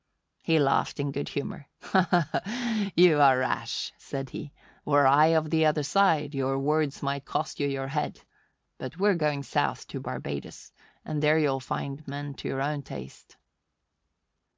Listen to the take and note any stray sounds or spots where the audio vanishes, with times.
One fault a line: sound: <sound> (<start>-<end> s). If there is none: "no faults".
no faults